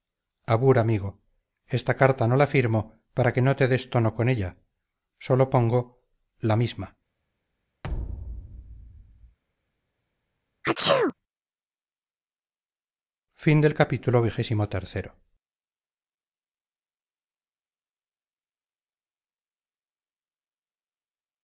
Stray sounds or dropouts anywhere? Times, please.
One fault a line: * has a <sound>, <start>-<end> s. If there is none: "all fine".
* has a thud, 7.8-9.4 s
* has a sneeze, 10.6-11.1 s